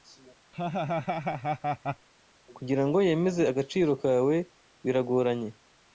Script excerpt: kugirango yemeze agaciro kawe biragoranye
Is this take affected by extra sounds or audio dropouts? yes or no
yes